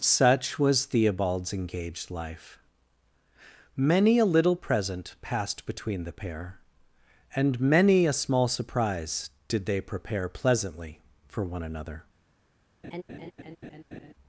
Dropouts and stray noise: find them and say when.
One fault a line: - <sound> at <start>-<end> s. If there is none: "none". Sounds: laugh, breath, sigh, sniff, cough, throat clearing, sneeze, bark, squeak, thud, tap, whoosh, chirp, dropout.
- laugh at 12.8-14.1 s